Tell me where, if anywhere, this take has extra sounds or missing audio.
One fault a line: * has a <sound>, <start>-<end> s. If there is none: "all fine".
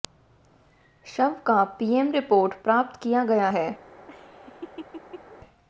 * has a laugh, 4.1-5.4 s